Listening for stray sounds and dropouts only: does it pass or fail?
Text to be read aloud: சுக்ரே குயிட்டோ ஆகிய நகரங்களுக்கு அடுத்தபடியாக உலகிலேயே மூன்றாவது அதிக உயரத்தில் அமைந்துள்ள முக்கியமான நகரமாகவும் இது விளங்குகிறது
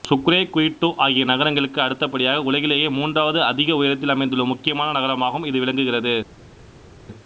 pass